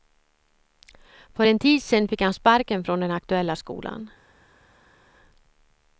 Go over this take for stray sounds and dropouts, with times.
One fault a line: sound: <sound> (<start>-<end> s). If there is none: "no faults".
no faults